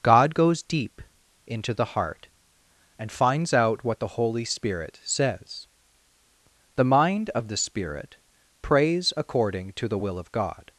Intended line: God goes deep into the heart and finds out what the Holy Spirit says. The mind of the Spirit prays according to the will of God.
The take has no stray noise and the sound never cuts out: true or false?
true